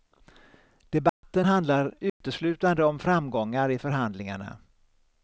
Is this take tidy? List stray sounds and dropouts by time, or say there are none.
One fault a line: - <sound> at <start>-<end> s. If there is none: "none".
- dropout at 1.1-1.2 s
- dropout at 2.1-2.2 s